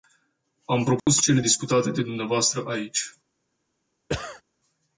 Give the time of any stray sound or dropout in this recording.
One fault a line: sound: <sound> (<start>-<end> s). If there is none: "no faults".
sound: dropout (1.0-1.1 s)
sound: cough (4.1-4.4 s)